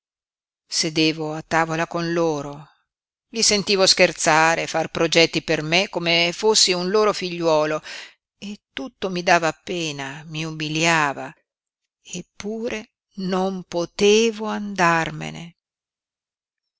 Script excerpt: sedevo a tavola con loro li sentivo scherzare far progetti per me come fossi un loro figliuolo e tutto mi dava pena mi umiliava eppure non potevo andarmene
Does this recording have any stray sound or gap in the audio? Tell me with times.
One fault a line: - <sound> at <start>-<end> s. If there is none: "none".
none